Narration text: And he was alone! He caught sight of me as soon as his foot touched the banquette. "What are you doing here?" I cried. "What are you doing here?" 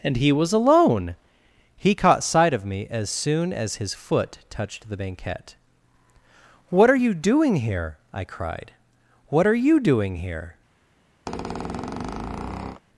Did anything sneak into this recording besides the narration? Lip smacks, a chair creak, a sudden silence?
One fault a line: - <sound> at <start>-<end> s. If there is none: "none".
- squeak at 11.3-12.8 s